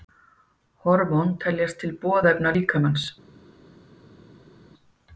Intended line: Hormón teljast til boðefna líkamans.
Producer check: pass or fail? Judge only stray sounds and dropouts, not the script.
pass